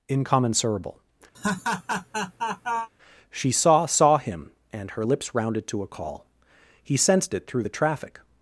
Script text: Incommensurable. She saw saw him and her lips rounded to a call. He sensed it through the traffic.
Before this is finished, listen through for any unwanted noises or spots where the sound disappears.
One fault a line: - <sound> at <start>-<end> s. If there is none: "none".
- laugh at 1.3-2.9 s